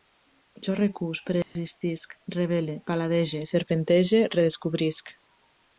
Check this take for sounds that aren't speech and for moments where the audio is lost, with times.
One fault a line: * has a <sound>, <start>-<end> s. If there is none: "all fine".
* has a dropout, 1.4-1.6 s